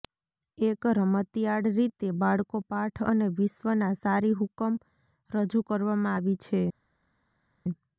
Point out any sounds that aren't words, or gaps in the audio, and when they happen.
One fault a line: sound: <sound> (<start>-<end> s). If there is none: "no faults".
no faults